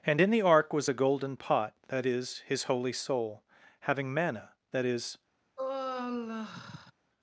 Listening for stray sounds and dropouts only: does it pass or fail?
fail